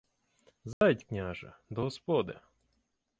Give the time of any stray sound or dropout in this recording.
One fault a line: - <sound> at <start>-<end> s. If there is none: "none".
- dropout at 0.7-0.8 s